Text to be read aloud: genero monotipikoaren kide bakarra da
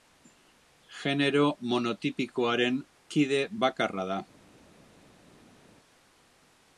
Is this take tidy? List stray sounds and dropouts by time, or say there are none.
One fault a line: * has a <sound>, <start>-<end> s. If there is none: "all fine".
all fine